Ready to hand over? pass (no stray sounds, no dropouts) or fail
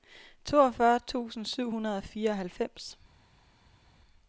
pass